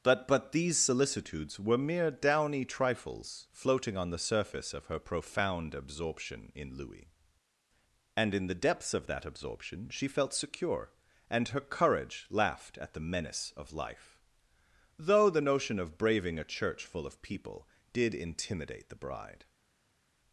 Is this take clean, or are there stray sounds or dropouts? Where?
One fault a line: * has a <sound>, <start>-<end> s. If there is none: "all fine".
all fine